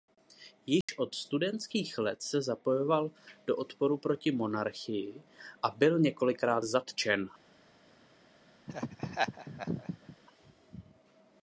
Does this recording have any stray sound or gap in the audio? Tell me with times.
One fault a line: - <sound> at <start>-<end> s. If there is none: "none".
- dropout at 0.8-0.9 s
- laugh at 8.7-10.2 s